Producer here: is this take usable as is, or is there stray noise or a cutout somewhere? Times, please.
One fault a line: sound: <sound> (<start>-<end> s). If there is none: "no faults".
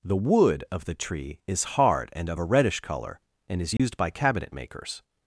sound: dropout (3.8-3.8 s)